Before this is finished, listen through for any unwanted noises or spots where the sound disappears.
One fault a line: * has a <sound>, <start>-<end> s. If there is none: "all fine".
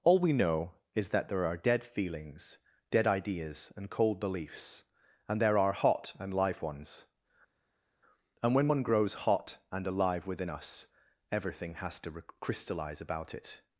all fine